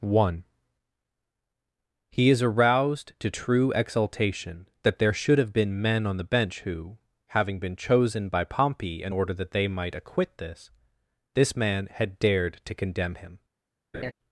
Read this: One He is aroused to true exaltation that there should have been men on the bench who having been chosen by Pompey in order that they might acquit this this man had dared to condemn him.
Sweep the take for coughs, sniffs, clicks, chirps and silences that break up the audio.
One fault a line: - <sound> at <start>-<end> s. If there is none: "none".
- laugh at 13.9-14.1 s